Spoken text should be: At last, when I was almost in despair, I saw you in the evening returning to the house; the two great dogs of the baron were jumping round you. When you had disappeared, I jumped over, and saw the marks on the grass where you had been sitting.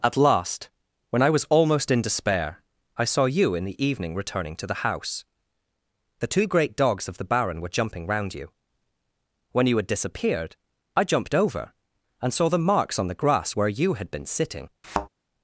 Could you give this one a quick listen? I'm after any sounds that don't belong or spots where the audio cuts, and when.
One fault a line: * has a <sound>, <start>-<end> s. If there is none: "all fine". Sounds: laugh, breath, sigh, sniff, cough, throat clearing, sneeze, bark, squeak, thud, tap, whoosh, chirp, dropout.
* has a thud, 14.8-15.1 s